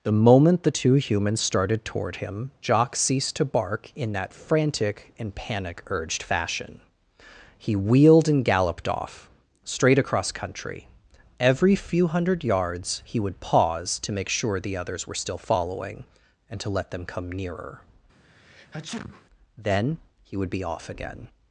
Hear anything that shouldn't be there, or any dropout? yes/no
yes